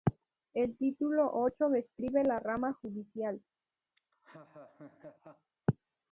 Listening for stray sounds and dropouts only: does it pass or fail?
fail